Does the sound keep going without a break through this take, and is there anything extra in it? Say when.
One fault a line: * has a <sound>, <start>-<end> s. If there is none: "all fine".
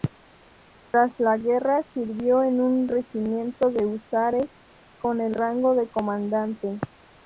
* has a dropout, 0.9-0.9 s